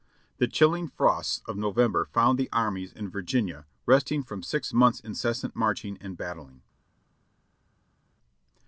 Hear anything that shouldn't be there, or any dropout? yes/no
no